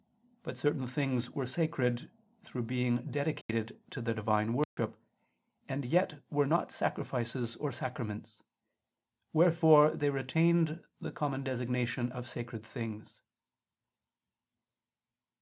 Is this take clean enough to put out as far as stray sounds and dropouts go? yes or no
no